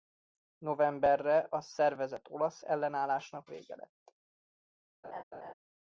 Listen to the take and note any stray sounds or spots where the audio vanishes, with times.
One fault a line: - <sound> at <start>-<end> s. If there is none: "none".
- laugh at 5.0-5.5 s